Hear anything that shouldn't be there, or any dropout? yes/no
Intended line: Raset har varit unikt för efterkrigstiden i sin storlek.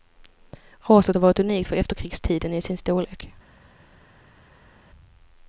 no